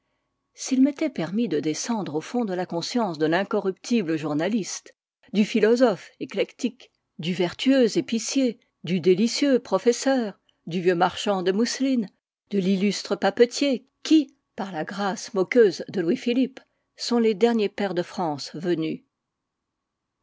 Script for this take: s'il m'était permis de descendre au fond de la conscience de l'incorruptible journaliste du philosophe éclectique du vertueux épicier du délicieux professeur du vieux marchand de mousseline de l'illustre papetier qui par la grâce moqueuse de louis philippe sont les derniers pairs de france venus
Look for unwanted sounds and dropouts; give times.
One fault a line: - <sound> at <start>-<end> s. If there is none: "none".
none